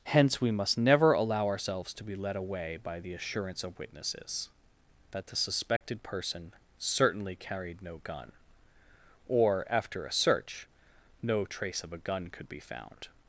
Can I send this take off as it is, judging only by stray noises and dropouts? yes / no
no